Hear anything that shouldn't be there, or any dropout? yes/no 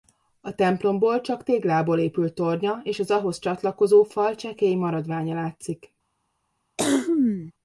yes